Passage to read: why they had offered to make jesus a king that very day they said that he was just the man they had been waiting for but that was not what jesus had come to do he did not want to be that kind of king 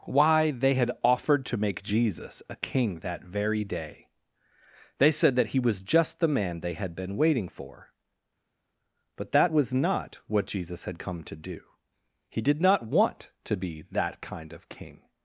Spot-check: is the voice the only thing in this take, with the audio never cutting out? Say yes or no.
yes